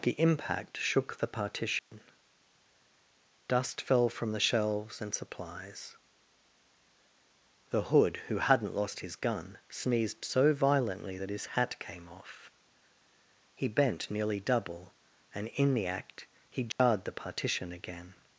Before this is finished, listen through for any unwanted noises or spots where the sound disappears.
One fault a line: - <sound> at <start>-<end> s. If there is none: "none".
- dropout at 1.8-1.9 s
- dropout at 16.7-16.8 s